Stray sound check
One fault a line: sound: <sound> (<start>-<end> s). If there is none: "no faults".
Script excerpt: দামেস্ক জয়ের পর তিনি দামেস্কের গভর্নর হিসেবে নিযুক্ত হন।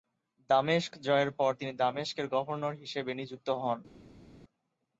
no faults